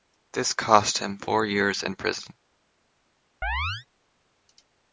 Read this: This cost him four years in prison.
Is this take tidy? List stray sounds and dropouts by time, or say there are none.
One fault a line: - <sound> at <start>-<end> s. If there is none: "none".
- chirp at 3.4-3.9 s